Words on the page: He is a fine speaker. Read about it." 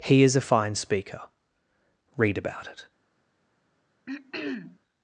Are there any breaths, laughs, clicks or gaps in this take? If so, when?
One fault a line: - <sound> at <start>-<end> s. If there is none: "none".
- throat clearing at 4.1-4.8 s